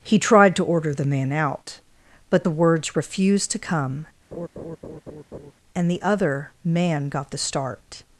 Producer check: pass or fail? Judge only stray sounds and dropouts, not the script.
fail